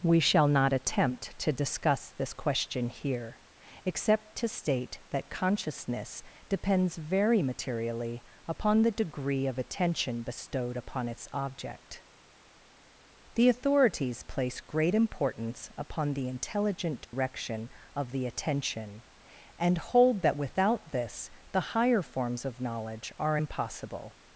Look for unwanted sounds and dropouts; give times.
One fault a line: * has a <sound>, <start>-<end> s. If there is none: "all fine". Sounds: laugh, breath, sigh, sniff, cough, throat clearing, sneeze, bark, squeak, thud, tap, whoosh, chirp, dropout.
* has a dropout, 17.0-17.1 s